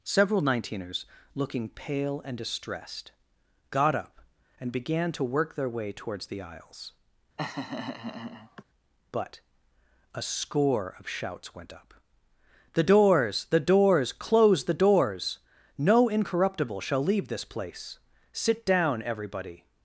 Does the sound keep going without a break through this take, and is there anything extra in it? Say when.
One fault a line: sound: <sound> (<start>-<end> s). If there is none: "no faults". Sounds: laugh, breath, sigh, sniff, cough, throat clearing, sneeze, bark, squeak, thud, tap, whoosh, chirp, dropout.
sound: laugh (7.4-8.6 s)